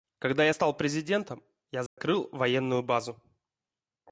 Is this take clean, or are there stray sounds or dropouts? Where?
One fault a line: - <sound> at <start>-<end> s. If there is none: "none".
- dropout at 1.9-2.0 s